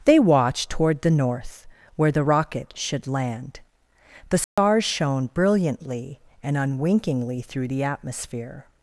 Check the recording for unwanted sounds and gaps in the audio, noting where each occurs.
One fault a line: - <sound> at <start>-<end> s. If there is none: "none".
- dropout at 4.4-4.6 s